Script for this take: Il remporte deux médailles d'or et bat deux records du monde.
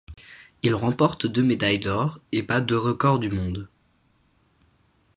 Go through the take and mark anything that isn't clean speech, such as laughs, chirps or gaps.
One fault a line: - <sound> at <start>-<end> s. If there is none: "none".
none